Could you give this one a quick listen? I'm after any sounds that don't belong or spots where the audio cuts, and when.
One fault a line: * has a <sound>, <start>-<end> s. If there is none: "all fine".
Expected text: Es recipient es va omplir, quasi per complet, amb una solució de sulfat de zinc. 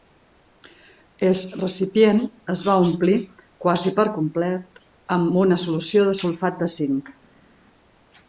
all fine